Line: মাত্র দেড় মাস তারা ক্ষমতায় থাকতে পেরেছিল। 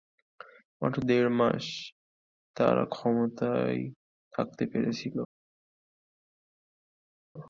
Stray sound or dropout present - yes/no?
no